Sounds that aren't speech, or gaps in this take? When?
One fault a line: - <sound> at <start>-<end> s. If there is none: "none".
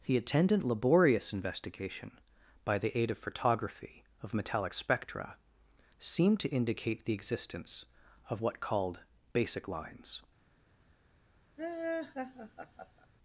- laugh at 11.6-13.1 s